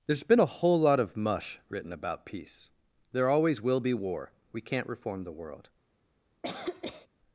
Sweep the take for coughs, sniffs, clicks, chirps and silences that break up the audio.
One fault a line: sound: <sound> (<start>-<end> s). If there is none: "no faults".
sound: cough (6.4-7.1 s)